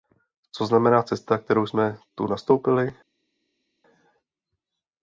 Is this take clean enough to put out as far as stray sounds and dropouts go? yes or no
yes